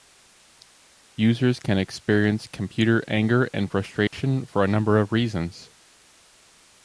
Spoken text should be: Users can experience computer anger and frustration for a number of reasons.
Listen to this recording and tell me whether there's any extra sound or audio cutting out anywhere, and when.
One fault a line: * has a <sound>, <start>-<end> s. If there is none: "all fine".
* has a dropout, 4.1-4.1 s